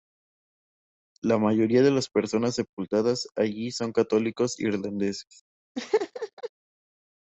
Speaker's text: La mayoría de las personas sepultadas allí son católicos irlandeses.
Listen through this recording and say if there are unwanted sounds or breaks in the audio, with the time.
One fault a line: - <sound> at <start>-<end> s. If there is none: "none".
- laugh at 5.8-6.5 s